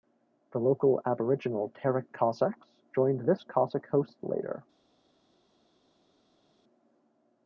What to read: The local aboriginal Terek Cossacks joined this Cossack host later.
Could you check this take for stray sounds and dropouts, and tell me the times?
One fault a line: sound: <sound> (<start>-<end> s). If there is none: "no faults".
no faults